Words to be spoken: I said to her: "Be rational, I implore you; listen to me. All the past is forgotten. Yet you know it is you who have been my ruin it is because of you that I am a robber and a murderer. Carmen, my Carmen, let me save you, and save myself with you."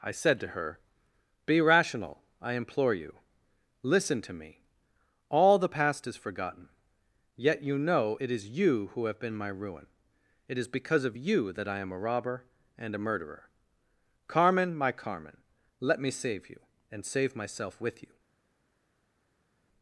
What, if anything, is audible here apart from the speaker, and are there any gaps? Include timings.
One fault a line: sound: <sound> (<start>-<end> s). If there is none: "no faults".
no faults